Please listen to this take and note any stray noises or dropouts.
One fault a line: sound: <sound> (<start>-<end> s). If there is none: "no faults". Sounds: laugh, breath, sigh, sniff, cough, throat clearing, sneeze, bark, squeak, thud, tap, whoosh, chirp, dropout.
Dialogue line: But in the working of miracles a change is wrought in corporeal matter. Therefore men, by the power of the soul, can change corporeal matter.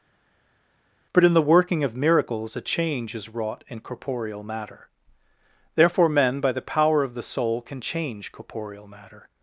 no faults